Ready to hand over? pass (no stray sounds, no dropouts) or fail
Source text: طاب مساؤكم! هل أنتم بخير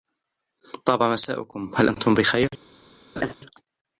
fail